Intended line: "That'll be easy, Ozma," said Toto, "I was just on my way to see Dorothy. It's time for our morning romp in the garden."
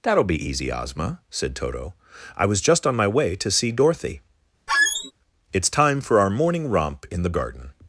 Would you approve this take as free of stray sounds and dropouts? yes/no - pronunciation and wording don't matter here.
no